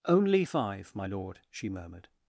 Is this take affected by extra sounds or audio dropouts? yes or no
no